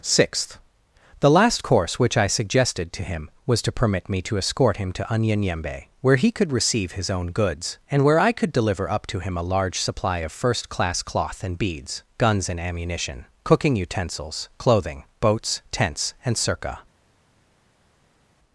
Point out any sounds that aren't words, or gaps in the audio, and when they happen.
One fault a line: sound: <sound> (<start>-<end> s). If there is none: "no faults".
no faults